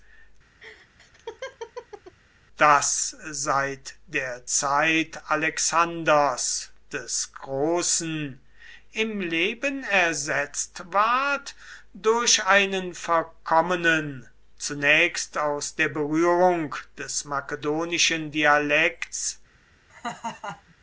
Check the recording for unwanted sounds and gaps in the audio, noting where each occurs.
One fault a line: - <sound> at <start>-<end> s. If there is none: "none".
- laugh at 0.6-2.2 s
- laugh at 19.9-20.7 s